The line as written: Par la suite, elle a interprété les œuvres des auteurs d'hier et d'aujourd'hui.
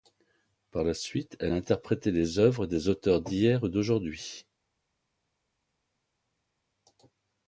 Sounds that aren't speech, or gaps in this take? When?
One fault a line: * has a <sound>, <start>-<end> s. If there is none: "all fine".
all fine